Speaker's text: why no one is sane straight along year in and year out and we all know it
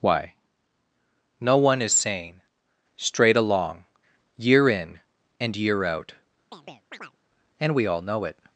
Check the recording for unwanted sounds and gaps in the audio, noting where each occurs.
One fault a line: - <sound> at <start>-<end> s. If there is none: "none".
- chirp at 6.5-7.2 s